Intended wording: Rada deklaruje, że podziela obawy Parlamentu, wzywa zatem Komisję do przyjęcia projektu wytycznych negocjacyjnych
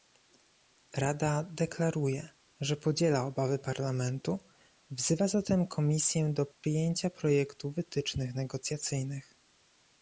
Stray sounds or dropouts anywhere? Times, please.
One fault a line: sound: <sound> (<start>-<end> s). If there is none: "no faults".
sound: dropout (6.5-6.6 s)